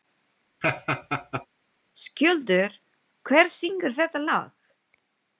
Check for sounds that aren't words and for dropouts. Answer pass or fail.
fail